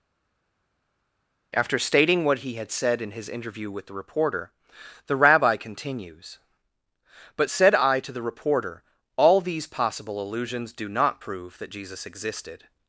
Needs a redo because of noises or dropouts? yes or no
no